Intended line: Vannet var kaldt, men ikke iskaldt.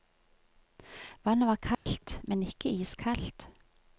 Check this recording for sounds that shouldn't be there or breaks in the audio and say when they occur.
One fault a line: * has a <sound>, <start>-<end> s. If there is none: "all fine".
* has a dropout, 1.7-1.9 s